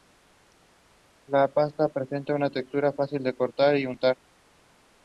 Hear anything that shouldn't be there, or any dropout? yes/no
no